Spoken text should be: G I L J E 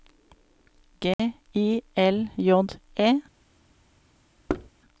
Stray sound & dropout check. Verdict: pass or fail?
fail